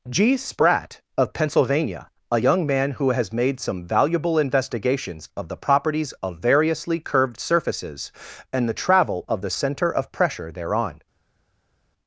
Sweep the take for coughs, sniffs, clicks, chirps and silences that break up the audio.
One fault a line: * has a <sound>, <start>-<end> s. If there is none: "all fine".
all fine